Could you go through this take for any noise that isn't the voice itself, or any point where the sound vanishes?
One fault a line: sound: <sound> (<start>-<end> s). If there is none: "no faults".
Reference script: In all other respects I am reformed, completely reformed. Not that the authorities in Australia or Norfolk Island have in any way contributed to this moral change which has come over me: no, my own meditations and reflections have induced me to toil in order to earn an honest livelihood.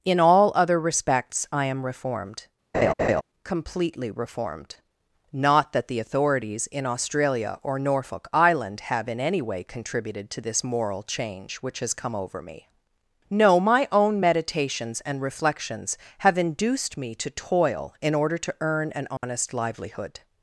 sound: laugh (2.7-3.2 s)
sound: dropout (19.2-19.2 s)